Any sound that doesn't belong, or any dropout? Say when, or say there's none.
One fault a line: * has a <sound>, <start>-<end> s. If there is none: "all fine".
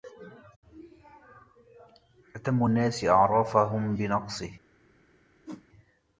* has a whoosh, 5.5-5.7 s